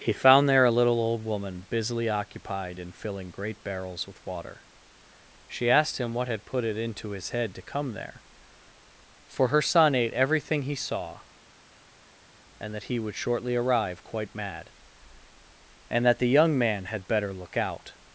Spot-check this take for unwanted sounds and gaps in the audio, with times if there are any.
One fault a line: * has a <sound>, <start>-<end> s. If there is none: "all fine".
all fine